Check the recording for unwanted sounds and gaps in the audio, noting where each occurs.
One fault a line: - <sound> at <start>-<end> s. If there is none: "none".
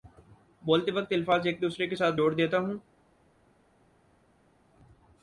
none